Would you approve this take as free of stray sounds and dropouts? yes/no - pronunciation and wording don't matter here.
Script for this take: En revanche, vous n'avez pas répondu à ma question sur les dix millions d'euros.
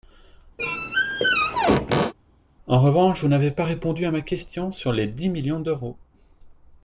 no